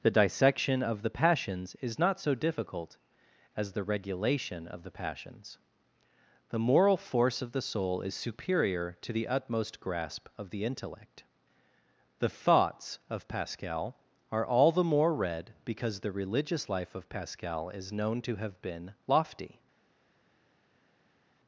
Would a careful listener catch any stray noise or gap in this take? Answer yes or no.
no